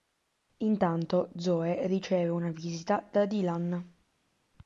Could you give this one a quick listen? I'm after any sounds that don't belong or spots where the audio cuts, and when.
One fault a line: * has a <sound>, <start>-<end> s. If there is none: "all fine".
all fine